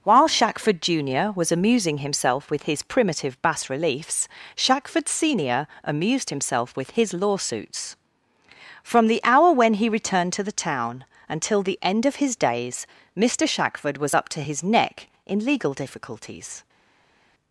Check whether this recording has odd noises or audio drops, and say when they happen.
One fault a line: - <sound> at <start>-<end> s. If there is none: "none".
none